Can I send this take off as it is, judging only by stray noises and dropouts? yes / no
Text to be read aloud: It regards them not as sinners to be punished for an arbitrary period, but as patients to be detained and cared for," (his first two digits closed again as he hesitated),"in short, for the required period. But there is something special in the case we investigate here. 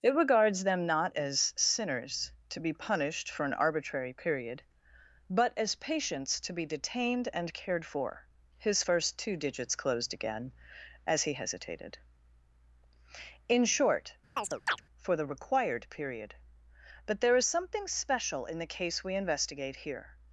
no